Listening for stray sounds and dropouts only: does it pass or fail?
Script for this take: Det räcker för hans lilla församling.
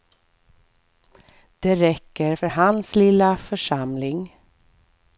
pass